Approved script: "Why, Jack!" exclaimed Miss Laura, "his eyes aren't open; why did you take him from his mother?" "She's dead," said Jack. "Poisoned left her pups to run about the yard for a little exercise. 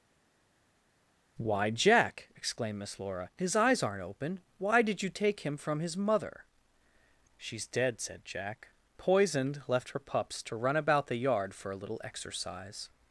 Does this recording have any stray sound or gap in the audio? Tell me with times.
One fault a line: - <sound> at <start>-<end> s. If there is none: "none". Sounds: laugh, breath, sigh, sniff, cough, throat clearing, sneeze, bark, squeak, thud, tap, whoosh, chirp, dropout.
none